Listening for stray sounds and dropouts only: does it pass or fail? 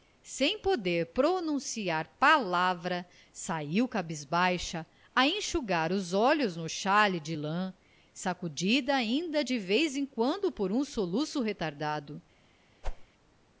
fail